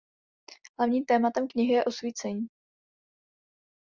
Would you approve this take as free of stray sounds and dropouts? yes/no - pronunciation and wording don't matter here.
yes